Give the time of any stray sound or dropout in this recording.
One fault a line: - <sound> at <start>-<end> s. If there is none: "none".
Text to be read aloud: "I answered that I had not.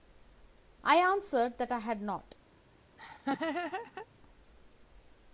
- laugh at 3.0-4.1 s